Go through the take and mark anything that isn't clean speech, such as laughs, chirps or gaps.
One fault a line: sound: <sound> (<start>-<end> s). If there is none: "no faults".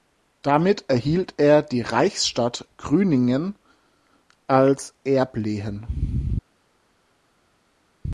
no faults